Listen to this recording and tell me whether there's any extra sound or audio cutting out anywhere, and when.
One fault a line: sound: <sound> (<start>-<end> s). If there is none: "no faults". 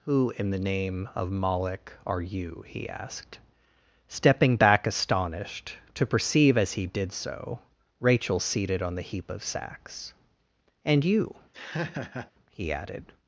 sound: laugh (11.5-12.3 s)